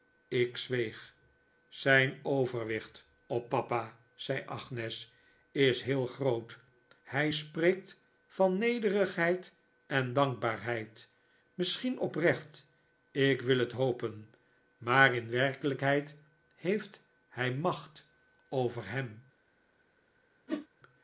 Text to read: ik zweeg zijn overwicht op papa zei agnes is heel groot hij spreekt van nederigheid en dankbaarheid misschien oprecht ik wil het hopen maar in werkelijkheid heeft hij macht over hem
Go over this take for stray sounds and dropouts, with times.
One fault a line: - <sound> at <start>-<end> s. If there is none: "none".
- whoosh at 20.5-20.7 s